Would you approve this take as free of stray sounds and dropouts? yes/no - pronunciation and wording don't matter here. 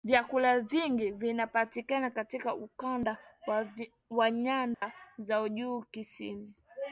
no